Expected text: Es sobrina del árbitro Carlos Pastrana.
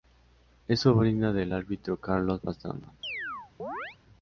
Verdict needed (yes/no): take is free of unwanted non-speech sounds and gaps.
no